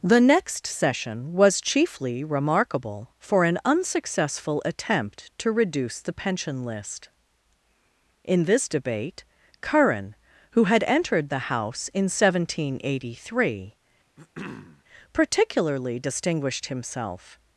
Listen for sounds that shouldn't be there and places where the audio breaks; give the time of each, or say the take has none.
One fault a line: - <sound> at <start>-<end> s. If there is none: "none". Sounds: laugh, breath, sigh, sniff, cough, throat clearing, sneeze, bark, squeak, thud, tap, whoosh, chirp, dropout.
- throat clearing at 14.2-14.8 s